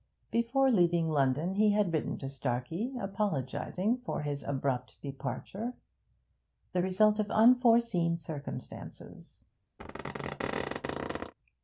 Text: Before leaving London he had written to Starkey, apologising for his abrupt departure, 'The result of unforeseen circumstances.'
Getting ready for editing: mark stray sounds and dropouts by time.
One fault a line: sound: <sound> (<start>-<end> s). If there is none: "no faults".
sound: squeak (9.8-11.3 s)